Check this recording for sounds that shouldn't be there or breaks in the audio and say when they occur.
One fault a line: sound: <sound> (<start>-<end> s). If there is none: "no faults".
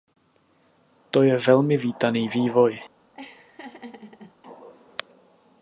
sound: laugh (3.1-4.4 s)